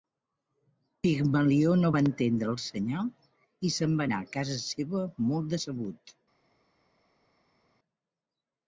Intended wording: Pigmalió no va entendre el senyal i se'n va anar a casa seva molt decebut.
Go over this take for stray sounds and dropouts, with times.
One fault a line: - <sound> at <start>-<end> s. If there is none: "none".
none